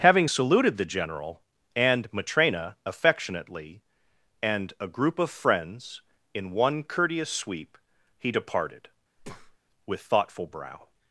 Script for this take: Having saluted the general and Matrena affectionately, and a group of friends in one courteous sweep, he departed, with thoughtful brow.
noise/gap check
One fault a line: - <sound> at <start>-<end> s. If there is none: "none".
- breath at 9.2-9.6 s